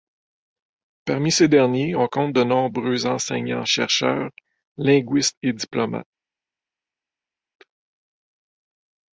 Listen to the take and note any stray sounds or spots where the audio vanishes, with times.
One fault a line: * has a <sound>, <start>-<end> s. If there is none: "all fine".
all fine